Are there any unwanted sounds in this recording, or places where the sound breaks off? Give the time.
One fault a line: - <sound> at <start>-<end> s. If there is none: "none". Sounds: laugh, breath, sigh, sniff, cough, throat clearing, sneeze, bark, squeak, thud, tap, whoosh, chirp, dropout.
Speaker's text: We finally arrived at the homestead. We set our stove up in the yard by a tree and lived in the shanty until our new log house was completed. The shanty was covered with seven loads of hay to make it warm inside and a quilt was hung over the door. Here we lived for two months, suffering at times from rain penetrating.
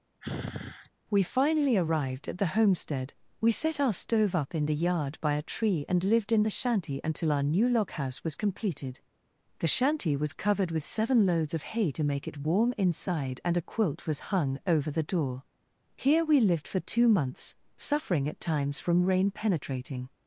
- sigh at 0.2-0.9 s